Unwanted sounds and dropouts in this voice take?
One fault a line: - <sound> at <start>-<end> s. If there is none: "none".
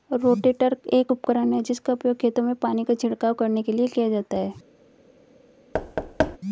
- thud at 5.7-6.4 s